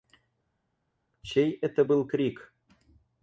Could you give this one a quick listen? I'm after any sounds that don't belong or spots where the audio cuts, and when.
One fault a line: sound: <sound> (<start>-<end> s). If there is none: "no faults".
no faults